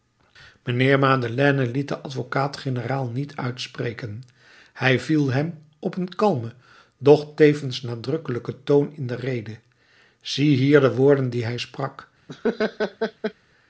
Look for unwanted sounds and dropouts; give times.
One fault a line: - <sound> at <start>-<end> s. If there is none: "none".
- laugh at 12.3-13.3 s